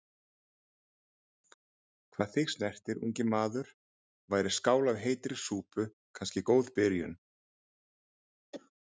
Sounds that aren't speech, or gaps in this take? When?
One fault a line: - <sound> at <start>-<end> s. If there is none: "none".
- cough at 8.5-8.7 s